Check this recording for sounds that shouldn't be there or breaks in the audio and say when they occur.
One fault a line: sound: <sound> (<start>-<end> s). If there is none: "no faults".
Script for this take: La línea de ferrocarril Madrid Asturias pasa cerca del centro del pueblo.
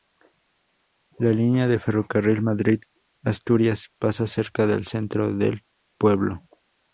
no faults